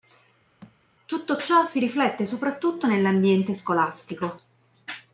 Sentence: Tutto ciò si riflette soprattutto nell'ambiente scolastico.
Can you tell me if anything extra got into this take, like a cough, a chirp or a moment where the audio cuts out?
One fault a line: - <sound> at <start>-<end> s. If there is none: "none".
- thud at 0.6-0.8 s